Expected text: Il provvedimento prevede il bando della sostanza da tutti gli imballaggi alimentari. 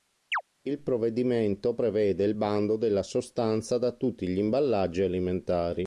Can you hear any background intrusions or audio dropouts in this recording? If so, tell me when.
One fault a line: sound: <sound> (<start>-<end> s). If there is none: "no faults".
sound: chirp (0.3-0.4 s)